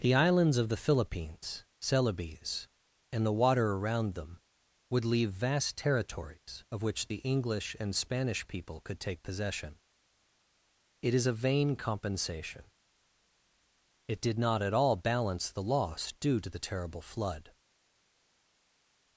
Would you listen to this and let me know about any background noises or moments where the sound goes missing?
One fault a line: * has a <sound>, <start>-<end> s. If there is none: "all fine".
all fine